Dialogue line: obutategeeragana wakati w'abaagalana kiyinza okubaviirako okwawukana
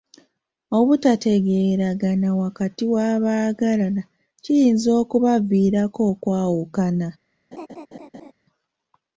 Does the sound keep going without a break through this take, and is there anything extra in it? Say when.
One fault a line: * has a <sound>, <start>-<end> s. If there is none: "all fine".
* has a laugh, 7.5-8.3 s